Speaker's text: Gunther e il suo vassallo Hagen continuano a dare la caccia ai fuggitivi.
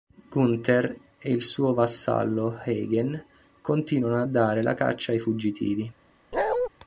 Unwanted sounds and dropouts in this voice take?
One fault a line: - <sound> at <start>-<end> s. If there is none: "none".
- bark at 6.3-6.7 s